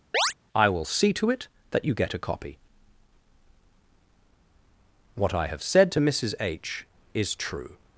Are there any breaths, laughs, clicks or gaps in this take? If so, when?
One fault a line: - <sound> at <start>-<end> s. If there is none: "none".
- chirp at 0.1-0.3 s